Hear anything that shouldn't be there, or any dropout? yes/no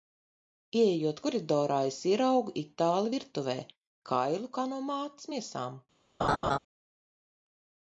yes